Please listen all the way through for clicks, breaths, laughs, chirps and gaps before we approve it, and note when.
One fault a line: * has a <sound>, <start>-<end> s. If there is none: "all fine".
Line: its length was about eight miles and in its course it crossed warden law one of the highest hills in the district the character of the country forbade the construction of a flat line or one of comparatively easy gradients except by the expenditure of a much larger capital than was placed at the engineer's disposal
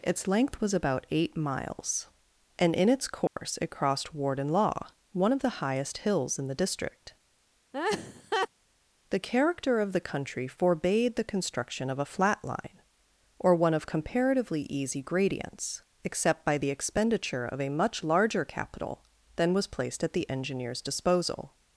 * has a dropout, 3.3-3.4 s
* has a laugh, 7.7-8.5 s